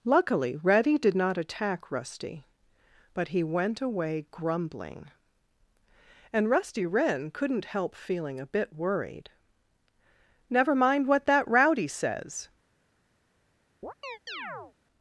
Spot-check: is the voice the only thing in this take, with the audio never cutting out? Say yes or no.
no